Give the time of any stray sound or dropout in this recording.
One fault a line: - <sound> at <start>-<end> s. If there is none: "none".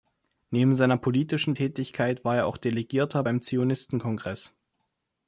none